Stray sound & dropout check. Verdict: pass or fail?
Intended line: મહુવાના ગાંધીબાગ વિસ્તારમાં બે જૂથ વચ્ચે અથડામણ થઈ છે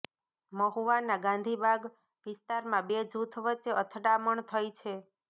pass